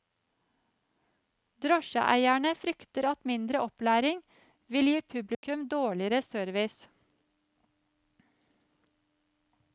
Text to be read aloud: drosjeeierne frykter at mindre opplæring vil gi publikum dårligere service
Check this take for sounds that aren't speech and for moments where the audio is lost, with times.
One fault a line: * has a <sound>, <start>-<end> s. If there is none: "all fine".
* has a dropout, 5.3-5.4 s